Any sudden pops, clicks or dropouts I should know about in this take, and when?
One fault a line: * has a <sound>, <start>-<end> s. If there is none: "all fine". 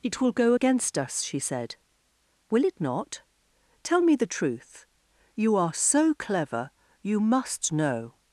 all fine